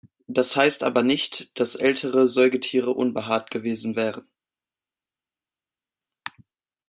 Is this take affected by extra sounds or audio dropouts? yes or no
no